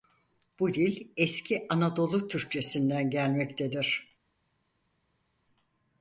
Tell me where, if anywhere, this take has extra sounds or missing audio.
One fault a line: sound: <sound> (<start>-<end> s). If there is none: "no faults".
no faults